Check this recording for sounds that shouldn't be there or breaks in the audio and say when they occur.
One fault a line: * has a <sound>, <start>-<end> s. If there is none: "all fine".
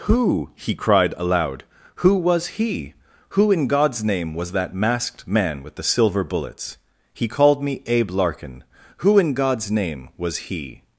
all fine